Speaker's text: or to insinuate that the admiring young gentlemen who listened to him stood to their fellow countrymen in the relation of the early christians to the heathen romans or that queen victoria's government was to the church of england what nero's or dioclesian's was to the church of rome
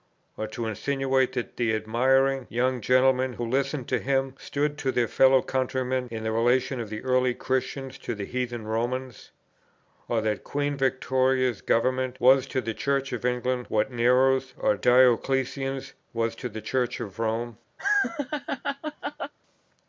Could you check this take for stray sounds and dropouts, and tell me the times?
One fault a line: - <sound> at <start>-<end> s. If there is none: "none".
- laugh at 17.8-19.3 s